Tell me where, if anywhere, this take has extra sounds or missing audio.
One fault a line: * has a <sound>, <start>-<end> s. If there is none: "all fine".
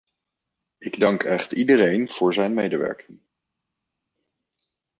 all fine